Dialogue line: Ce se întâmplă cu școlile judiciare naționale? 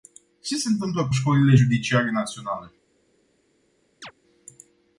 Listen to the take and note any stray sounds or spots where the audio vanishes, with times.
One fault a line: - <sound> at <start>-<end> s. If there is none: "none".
- chirp at 4.0-4.1 s